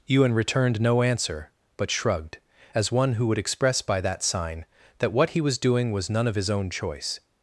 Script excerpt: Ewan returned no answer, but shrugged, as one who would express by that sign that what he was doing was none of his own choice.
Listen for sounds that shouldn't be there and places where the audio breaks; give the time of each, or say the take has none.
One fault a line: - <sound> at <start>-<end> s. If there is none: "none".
none